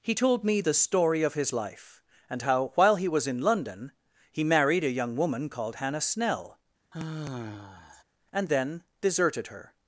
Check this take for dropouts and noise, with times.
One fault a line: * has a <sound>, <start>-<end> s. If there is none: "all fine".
* has a sigh, 6.9-8.0 s